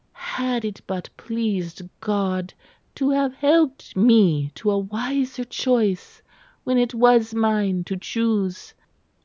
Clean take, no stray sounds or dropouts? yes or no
yes